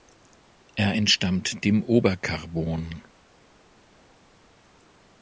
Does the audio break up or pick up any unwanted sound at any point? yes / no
no